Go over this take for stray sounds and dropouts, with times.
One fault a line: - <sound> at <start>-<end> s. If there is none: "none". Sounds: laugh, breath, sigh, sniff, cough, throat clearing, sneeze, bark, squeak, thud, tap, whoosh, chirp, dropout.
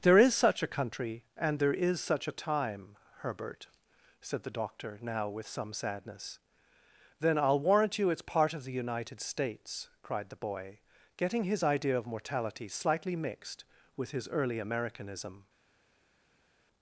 none